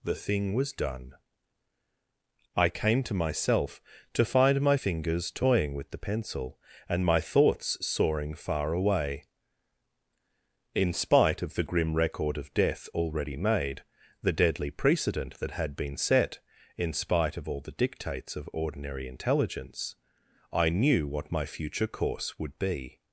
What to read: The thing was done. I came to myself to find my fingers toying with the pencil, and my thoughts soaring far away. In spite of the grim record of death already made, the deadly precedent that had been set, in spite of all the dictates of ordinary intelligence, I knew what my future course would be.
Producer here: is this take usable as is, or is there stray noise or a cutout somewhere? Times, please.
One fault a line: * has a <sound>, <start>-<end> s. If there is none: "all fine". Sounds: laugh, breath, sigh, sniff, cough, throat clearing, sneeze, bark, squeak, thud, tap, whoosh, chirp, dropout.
all fine